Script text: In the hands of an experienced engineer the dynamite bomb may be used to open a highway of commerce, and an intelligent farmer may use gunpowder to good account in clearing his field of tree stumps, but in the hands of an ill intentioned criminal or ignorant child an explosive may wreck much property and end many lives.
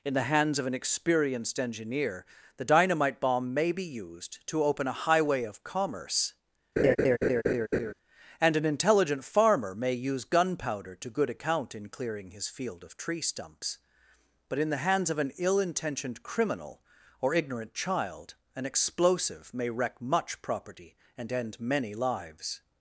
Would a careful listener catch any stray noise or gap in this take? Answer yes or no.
yes